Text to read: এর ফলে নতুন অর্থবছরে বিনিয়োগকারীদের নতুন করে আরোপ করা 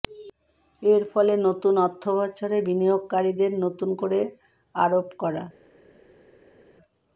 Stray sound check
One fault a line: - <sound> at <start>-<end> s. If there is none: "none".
none